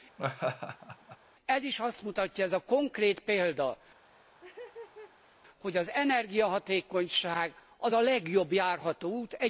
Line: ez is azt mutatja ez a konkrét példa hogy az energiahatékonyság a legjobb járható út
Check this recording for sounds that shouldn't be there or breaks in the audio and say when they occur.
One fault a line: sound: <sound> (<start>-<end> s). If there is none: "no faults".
sound: laugh (0.2-1.2 s)
sound: laugh (4.1-5.4 s)